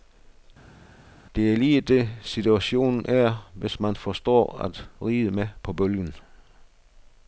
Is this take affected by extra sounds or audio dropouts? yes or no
no